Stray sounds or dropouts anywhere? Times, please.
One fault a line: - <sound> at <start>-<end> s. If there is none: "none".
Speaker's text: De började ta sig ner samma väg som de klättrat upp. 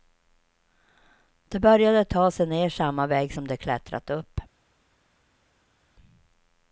none